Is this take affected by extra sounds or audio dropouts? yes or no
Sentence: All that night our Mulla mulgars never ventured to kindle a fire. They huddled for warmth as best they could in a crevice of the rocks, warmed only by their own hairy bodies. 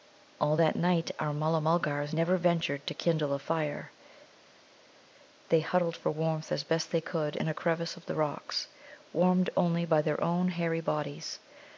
no